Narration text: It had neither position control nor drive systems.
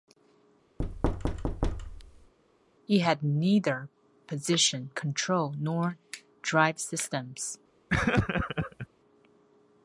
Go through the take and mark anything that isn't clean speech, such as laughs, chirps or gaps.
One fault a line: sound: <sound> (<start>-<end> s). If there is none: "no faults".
sound: thud (0.8-2.3 s)
sound: laugh (7.9-8.9 s)